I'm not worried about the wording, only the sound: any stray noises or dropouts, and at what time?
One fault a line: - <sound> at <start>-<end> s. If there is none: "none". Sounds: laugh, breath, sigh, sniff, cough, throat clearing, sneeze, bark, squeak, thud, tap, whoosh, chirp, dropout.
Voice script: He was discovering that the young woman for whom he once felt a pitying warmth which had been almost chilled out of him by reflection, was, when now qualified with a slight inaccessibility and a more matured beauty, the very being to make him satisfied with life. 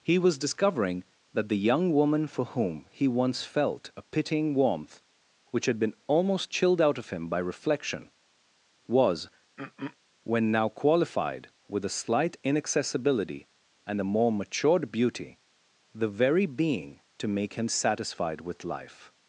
- throat clearing at 9.6-10.0 s